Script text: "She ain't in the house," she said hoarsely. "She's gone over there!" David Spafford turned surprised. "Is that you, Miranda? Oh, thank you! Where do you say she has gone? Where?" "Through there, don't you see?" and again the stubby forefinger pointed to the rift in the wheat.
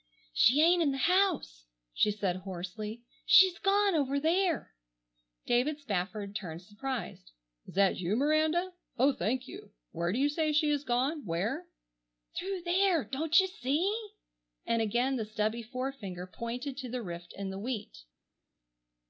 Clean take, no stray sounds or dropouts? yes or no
yes